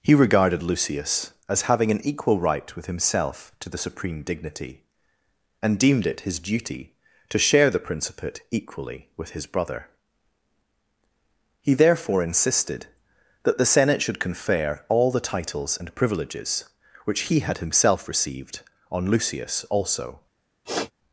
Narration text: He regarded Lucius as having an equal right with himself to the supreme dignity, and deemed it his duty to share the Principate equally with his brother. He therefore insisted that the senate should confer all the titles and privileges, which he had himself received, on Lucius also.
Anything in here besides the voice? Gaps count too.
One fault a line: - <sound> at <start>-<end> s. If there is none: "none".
- sniff at 20.6-20.9 s